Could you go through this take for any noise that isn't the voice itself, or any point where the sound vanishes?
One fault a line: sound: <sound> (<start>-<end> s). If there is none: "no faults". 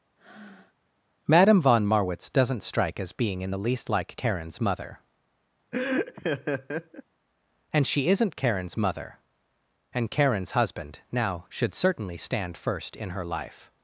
sound: breath (0.2-0.8 s)
sound: laugh (5.7-7.0 s)